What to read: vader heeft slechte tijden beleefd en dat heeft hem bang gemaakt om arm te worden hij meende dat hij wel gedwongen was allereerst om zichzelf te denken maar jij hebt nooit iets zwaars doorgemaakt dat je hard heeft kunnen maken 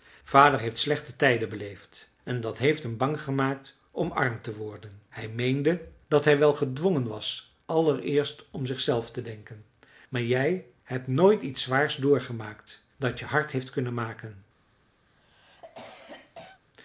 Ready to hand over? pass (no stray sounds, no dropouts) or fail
fail